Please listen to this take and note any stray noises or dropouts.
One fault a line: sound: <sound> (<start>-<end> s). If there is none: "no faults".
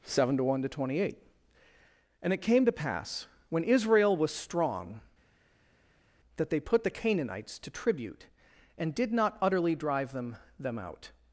no faults